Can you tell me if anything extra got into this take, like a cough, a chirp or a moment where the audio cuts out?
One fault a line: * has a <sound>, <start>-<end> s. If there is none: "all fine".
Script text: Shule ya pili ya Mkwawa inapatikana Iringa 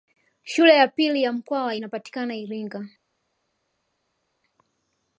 all fine